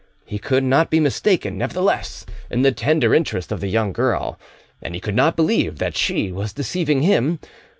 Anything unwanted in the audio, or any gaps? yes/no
no